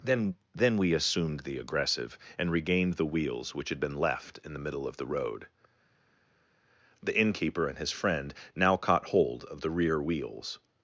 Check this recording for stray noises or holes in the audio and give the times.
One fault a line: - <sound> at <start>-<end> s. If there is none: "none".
none